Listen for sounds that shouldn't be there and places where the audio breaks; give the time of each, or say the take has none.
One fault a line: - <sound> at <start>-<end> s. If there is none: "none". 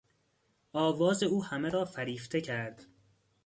none